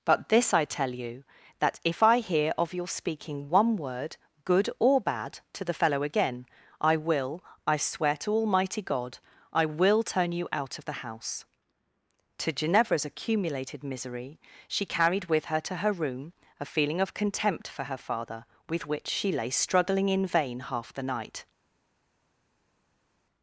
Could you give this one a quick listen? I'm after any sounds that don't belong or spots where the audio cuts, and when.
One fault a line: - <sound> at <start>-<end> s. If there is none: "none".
none